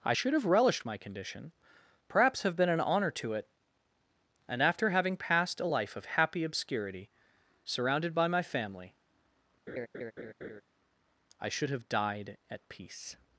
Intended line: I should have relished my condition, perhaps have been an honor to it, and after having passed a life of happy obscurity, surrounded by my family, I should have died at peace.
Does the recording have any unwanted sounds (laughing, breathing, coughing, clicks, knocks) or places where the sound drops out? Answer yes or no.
yes